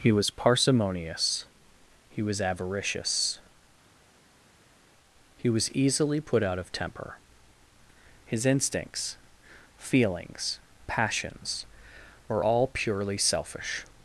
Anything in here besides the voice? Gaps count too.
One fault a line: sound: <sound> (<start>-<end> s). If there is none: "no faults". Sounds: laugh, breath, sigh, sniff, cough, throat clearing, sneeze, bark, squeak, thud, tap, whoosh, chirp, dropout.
no faults